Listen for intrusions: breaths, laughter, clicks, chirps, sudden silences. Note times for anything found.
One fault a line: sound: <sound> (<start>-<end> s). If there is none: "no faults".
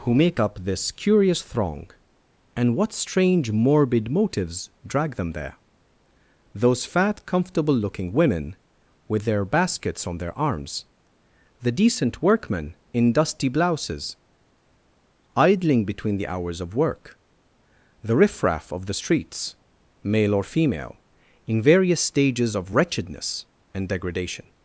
no faults